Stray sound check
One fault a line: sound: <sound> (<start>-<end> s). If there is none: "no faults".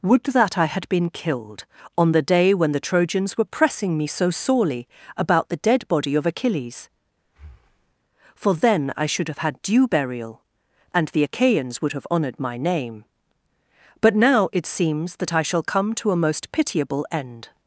sound: breath (7.2-7.9 s)